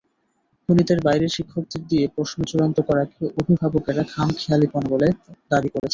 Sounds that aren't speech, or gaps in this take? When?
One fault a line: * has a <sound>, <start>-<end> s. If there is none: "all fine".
* has a dropout, 5.8-5.8 s